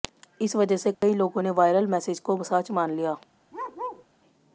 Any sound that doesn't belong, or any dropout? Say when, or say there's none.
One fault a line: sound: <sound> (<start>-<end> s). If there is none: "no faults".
sound: dropout (0.9-1.0 s)
sound: bark (3.5-4.1 s)